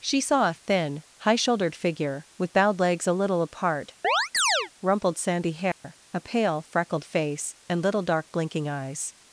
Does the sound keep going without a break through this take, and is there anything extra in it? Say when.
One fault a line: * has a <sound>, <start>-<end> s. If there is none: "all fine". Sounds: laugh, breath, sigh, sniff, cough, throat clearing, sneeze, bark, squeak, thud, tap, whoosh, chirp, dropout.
* has a chirp, 4.0-4.7 s
* has a dropout, 5.7-5.8 s